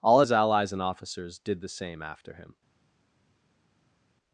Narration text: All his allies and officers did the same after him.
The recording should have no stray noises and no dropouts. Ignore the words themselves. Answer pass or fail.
pass